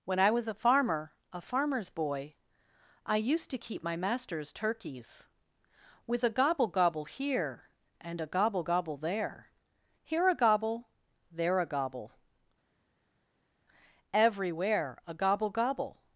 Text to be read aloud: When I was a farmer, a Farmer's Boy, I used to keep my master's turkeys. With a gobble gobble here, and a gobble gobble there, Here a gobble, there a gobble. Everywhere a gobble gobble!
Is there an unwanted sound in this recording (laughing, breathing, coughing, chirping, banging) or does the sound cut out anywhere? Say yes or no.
no